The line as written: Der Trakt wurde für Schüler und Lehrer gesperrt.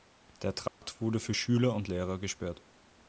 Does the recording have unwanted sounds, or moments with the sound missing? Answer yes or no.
yes